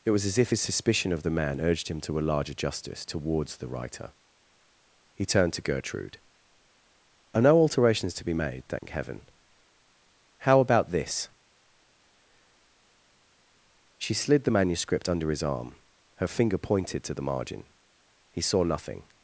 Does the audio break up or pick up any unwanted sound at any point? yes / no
yes